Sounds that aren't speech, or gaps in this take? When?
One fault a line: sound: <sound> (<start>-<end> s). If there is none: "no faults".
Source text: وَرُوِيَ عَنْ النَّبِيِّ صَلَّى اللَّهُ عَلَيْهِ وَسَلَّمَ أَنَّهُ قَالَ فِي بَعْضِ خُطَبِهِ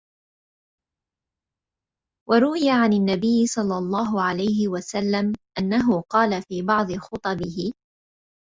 no faults